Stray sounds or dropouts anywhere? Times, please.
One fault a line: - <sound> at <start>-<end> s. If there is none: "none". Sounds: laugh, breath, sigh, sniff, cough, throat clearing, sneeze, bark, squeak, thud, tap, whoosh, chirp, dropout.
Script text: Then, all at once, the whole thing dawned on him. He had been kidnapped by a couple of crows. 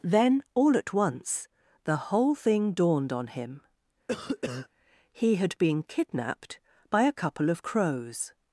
- cough at 4.1-4.7 s